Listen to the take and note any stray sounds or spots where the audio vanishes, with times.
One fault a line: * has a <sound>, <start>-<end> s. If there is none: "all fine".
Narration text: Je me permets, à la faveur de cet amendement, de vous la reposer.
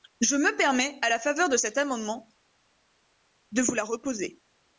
all fine